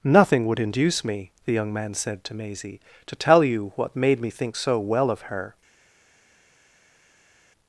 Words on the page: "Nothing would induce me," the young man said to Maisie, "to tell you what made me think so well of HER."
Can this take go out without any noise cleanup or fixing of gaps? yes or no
yes